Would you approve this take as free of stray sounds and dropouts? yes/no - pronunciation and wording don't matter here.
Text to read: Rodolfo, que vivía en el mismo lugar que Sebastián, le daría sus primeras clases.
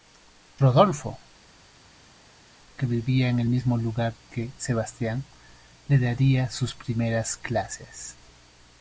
yes